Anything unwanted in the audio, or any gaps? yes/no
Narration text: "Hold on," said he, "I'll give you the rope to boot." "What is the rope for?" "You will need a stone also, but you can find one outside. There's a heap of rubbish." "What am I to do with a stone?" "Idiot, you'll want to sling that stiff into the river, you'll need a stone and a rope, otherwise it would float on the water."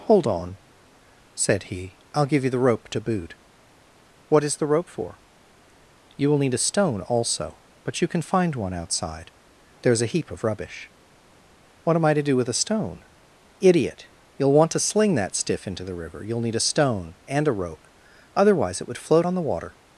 no